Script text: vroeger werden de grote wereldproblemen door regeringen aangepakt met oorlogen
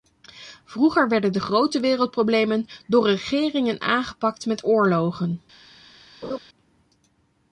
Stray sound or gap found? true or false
true